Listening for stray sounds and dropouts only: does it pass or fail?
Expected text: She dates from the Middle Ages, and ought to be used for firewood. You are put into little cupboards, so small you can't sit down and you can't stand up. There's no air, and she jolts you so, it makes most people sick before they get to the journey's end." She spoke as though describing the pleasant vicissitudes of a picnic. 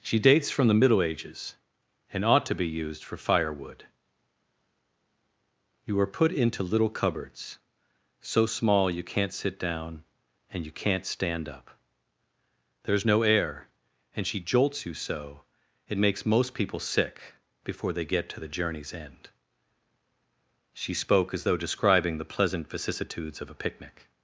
pass